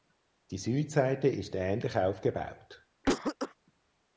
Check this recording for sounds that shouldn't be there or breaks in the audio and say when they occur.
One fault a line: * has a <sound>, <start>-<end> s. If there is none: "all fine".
* has a cough, 3.0-3.5 s